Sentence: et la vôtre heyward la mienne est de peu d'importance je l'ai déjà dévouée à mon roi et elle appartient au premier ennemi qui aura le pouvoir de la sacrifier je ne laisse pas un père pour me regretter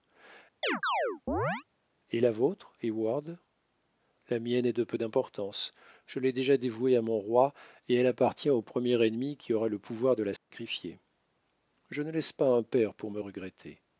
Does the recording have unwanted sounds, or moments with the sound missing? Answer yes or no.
yes